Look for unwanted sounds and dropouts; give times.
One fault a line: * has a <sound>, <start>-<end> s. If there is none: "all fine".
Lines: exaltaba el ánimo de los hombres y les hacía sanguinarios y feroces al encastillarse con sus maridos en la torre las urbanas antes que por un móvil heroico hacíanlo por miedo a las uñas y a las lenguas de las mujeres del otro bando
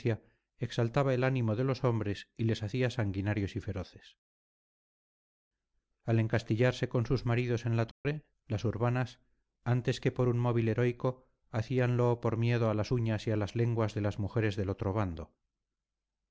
* has a dropout, 7.9-8.1 s